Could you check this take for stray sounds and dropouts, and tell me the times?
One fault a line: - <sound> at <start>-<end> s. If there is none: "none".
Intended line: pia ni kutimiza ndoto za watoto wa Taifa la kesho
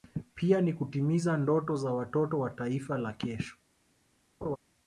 - laugh at 4.4-4.6 s